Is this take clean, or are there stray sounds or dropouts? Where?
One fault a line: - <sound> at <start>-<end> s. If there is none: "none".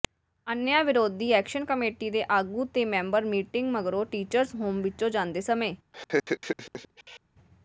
- laugh at 5.9-7.2 s